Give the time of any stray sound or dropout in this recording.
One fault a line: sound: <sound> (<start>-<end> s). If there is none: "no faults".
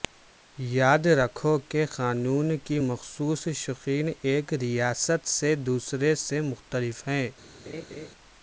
sound: laugh (7.7-8.1 s)